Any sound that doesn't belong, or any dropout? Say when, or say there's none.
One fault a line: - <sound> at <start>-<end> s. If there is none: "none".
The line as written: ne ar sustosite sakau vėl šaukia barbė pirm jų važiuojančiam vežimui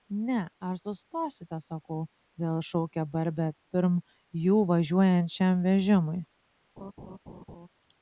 - laugh at 6.8-7.7 s